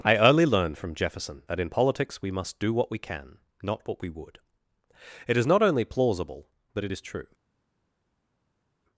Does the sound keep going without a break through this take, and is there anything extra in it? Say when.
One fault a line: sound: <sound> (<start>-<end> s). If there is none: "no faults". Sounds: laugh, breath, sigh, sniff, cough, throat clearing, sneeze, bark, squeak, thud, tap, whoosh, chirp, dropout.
no faults